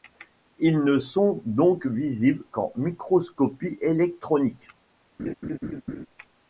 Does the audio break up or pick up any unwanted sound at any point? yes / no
yes